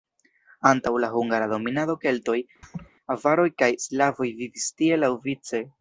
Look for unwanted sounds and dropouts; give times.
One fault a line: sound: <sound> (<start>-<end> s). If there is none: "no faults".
sound: laugh (2.6-2.9 s)